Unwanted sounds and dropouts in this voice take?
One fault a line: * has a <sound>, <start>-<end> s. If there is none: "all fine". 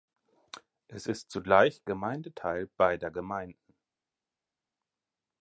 all fine